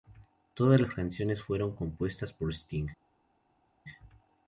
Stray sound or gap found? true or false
false